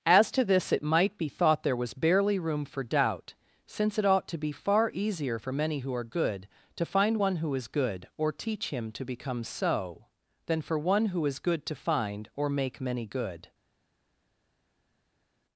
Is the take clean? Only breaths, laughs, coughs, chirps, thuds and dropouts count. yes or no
yes